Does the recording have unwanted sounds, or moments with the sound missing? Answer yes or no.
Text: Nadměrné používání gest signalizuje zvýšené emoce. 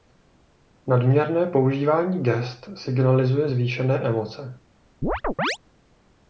yes